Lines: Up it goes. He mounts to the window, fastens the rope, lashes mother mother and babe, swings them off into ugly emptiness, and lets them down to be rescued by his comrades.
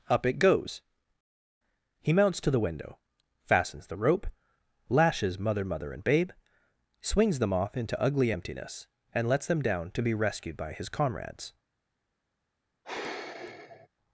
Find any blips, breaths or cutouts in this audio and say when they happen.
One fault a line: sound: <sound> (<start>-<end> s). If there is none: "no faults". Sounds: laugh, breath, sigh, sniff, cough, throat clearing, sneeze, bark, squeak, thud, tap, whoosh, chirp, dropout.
sound: sigh (12.8-13.9 s)